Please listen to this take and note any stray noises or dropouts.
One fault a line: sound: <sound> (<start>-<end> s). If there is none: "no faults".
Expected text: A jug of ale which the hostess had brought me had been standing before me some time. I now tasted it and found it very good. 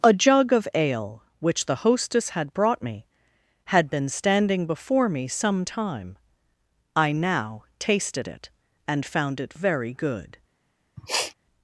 sound: sniff (11.0-11.3 s)